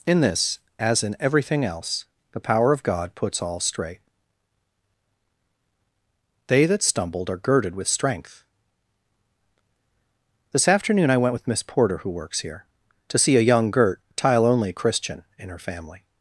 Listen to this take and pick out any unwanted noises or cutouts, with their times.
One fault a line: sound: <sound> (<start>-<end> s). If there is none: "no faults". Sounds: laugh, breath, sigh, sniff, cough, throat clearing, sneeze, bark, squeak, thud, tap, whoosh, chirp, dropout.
no faults